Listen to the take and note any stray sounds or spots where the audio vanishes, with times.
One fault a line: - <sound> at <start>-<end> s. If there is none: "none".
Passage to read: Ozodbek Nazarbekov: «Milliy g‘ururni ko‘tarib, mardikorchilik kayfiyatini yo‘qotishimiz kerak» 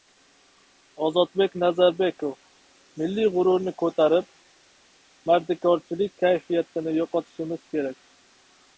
none